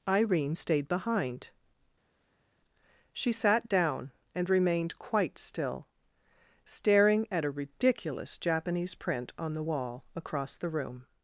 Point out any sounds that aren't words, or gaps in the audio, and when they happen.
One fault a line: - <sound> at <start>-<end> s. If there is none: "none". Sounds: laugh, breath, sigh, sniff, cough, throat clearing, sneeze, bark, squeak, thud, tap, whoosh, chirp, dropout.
none